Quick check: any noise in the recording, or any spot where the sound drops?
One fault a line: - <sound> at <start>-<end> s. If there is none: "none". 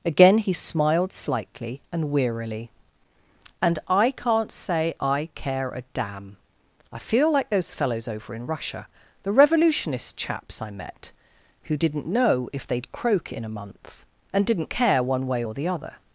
none